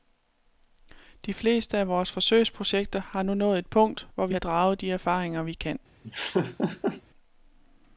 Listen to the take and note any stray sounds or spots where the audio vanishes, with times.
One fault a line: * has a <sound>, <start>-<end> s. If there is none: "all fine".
* has a laugh, 6.0-7.0 s